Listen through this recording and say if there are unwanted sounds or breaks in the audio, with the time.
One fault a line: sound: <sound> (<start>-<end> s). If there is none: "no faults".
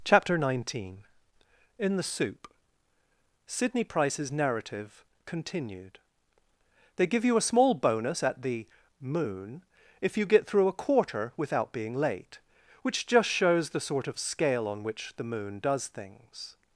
no faults